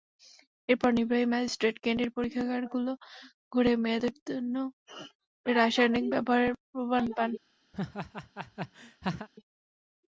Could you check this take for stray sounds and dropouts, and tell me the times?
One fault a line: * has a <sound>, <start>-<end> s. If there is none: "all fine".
* has a laugh, 7.7-9.3 s